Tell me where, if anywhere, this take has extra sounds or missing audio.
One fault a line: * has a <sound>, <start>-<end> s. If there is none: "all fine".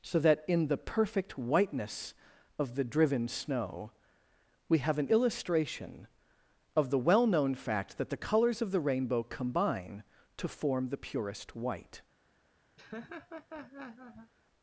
* has a laugh, 12.8-14.3 s